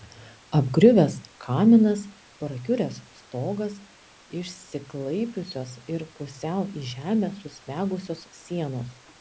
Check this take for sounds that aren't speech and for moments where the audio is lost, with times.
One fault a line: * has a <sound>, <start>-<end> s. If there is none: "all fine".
all fine